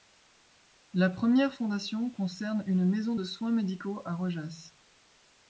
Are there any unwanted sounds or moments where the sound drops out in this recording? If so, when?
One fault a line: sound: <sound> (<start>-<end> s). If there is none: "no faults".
no faults